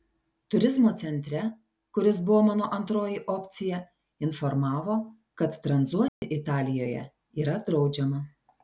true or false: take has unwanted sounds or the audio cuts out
true